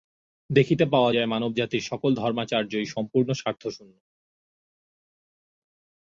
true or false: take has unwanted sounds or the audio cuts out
false